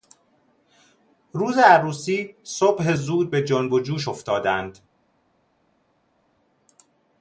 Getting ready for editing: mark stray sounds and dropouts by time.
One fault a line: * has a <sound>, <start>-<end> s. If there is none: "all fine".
all fine